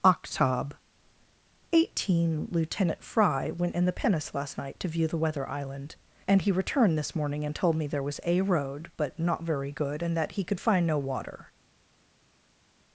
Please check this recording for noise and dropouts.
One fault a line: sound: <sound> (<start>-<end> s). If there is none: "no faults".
no faults